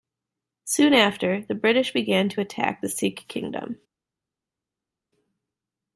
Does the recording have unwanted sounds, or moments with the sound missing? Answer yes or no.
no